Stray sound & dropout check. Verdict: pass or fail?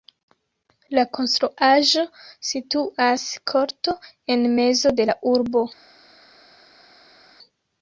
pass